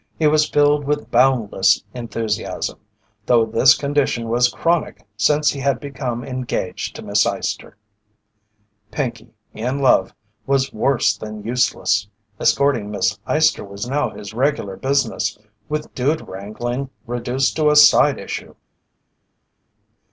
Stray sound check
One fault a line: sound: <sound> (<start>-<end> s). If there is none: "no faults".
no faults